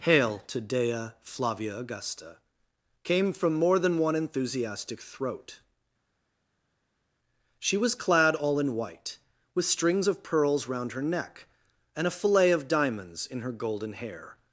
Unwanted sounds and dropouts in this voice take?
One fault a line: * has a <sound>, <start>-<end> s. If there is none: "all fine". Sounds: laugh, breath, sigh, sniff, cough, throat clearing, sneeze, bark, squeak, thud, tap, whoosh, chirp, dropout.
all fine